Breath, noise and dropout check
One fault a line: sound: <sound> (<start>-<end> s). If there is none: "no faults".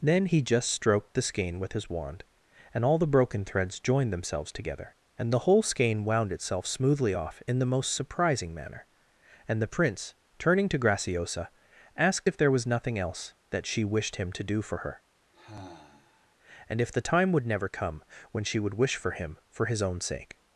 sound: sigh (15.3-16.4 s)